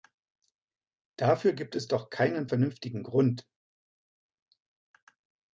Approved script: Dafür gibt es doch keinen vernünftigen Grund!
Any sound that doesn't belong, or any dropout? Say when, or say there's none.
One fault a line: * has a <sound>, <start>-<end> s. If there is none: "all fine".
all fine